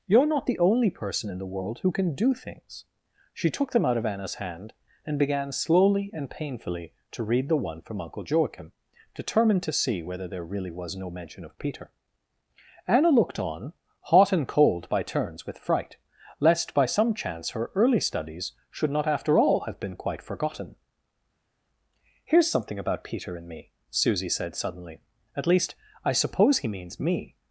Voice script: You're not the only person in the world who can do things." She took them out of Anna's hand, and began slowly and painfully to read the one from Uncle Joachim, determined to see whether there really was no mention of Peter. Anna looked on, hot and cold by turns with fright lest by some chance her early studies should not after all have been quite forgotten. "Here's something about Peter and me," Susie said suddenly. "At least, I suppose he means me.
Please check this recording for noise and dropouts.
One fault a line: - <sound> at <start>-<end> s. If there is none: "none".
none